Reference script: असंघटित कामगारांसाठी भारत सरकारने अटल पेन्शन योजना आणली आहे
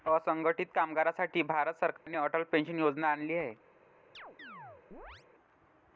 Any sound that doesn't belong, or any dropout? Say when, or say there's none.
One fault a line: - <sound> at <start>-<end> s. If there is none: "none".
- dropout at 2.0-2.1 s
- chirp at 4.1-5.3 s